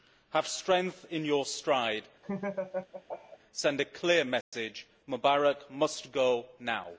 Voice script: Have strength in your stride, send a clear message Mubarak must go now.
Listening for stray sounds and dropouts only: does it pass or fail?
fail